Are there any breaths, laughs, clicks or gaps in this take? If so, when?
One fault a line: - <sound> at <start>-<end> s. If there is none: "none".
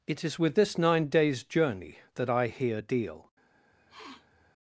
- sniff at 3.7-4.5 s